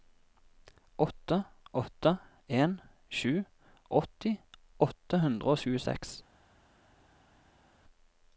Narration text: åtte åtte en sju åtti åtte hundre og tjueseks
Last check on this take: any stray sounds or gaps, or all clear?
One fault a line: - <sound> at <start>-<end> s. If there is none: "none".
none